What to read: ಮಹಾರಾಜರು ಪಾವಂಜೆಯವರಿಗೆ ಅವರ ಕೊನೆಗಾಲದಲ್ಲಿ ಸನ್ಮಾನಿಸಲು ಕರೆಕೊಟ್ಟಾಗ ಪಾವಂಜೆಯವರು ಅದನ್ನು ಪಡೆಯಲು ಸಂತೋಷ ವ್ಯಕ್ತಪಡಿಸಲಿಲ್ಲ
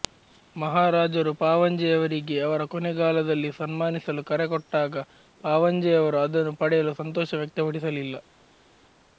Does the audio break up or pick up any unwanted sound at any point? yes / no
no